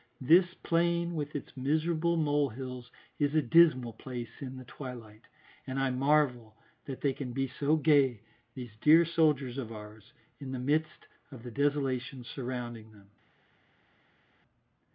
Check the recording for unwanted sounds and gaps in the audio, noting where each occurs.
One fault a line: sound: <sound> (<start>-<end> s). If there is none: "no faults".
no faults